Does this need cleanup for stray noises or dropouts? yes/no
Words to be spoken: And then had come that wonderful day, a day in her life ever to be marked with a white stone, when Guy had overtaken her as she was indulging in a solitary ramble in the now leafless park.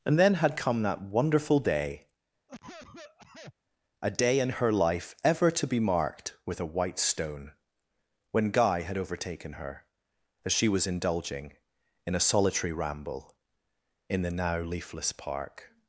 yes